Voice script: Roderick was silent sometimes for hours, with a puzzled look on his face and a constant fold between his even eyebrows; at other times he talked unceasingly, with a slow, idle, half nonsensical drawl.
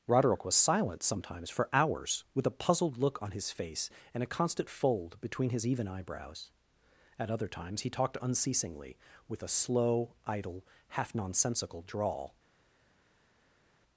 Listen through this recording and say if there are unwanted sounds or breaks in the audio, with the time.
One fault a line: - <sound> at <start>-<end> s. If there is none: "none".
none